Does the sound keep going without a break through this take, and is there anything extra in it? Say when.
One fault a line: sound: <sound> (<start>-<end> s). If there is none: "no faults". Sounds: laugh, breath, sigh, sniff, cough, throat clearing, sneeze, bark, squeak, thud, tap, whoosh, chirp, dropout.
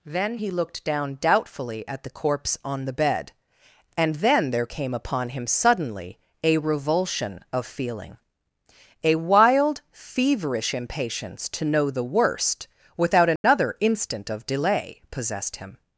sound: dropout (13.4-13.4 s)